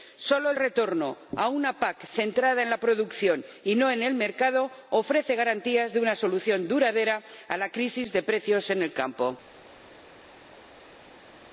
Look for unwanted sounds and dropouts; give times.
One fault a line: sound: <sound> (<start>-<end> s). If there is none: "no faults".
no faults